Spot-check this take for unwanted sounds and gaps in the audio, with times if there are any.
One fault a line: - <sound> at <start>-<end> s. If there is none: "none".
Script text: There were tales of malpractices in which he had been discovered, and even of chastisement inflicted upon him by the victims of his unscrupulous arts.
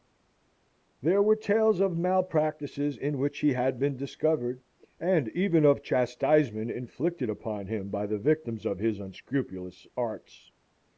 none